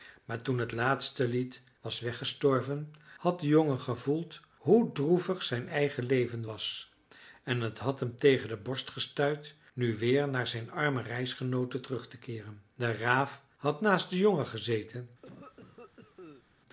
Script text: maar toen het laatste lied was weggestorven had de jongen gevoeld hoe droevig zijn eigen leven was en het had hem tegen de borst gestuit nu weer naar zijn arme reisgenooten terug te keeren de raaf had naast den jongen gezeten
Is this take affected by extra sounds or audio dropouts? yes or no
yes